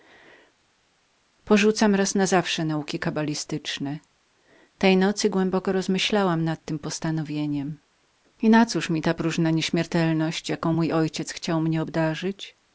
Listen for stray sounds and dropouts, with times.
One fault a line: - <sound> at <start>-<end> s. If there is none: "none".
none